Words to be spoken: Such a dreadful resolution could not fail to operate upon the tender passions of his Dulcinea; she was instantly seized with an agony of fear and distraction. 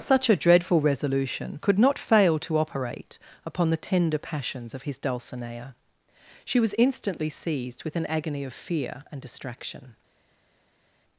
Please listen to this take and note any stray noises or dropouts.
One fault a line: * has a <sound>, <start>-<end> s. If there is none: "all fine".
all fine